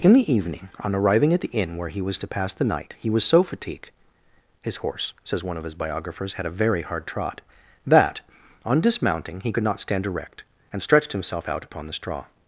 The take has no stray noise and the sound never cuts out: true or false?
true